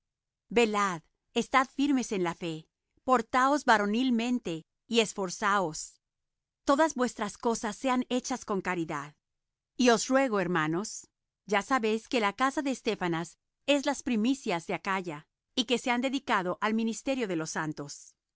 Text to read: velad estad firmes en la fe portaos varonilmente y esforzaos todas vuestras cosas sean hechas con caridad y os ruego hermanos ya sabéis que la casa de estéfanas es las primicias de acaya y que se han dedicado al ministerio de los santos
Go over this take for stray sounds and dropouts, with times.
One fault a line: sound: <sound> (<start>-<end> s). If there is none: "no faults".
no faults